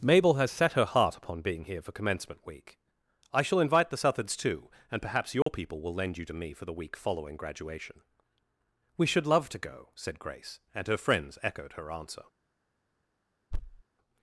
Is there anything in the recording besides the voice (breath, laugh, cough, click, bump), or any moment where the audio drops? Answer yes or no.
yes